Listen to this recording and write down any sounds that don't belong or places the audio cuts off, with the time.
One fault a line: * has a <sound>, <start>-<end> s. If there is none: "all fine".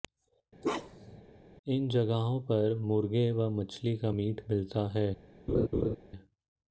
* has a bark, 0.6-1.2 s
* has a laugh, 5.5-6.0 s